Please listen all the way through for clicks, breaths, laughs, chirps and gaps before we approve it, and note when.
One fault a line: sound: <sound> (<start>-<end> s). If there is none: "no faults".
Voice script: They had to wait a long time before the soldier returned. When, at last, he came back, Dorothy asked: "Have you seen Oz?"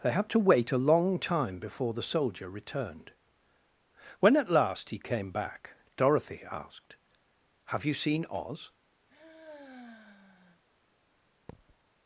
sound: sigh (9.1-10.6 s)
sound: thud (11.5-11.8 s)